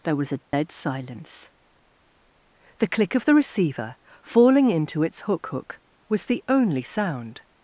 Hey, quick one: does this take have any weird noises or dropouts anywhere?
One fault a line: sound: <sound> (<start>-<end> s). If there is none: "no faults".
sound: dropout (0.5-0.5 s)